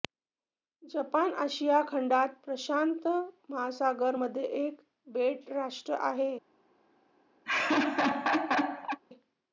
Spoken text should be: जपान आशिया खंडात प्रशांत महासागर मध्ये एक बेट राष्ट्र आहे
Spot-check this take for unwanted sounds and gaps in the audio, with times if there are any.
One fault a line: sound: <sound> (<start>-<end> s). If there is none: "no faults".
sound: laugh (7.5-9.0 s)